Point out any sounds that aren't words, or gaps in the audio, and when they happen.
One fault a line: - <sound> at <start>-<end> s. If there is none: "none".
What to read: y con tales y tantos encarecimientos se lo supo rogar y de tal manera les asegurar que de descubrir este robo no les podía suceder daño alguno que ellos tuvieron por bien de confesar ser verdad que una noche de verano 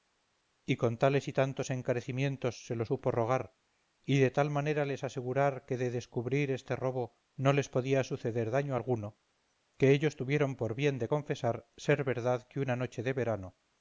none